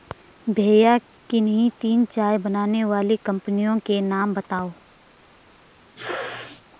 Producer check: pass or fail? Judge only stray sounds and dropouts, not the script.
fail